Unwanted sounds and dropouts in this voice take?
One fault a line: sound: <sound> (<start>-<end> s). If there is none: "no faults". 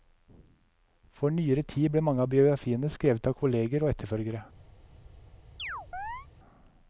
sound: chirp (5.6-6.3 s)